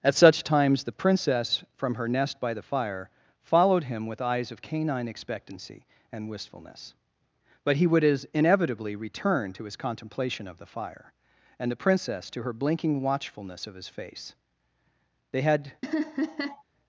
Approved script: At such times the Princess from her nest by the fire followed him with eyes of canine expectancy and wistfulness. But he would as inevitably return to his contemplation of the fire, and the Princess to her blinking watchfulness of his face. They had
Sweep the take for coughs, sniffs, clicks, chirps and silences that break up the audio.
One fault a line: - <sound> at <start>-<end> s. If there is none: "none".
- laugh at 15.8-16.6 s